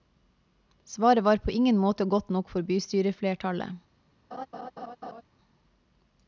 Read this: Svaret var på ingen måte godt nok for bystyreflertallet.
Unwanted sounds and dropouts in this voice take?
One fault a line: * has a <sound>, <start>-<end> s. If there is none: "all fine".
* has a laugh, 4.3-5.2 s